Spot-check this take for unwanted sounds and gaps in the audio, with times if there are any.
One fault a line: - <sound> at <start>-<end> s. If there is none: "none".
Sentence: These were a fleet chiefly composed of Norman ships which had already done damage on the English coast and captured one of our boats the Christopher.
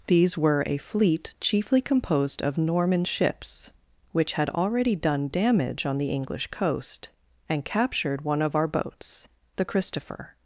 none